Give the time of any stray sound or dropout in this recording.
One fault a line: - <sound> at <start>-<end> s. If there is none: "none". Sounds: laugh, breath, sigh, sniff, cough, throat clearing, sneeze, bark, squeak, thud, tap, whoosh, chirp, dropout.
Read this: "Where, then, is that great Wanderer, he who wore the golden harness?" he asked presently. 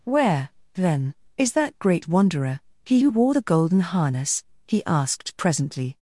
none